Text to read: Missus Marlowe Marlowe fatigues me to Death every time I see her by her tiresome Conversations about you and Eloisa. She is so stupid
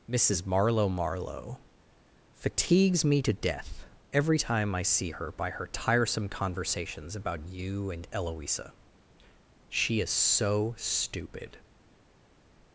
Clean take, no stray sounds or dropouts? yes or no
yes